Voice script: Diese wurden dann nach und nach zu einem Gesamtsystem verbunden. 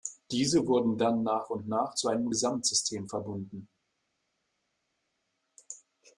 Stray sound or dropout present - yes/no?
no